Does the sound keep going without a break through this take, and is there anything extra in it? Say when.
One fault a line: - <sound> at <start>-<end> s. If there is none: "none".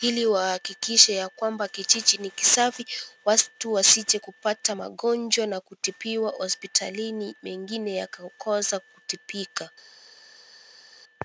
none